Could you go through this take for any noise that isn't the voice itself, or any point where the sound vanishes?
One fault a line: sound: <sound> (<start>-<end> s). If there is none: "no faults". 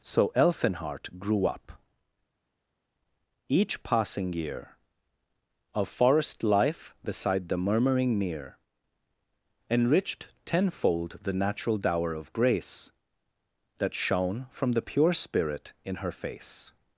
no faults